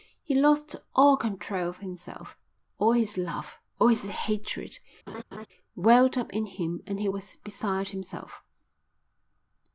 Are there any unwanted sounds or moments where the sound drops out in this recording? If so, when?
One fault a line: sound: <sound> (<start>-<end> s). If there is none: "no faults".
sound: laugh (5.1-5.5 s)